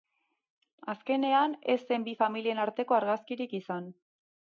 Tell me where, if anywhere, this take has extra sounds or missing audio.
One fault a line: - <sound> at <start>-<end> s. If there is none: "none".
none